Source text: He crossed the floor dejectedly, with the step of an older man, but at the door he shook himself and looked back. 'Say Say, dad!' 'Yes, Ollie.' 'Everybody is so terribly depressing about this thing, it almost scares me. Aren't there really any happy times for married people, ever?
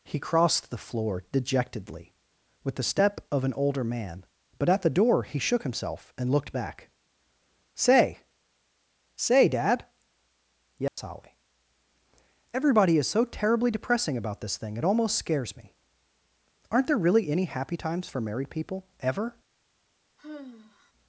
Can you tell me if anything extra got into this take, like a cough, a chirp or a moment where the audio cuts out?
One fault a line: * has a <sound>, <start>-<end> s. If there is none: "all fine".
* has a dropout, 10.9-11.0 s
* has a sigh, 20.2-20.9 s